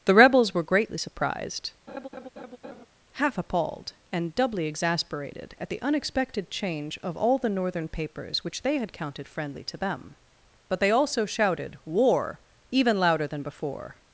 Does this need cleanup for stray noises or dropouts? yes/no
yes